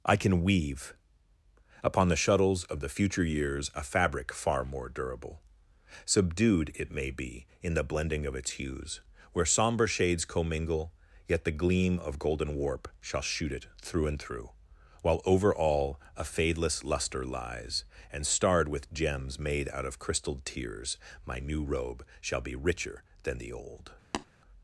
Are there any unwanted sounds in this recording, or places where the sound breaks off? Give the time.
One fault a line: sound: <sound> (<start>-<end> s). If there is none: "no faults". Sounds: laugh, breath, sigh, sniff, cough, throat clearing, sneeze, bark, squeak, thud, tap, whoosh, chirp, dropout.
sound: tap (24.1-24.3 s)